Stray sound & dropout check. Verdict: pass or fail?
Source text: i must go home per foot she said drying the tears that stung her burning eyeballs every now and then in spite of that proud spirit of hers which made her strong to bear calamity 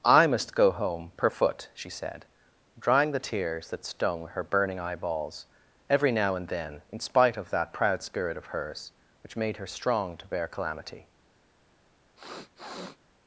fail